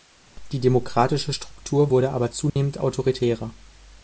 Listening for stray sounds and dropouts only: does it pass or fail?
fail